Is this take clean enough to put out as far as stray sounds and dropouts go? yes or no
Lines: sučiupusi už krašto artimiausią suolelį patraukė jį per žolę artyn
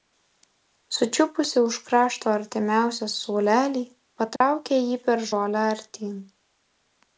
no